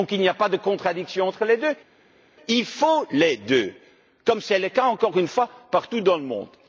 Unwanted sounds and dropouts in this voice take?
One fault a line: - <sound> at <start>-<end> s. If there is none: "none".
none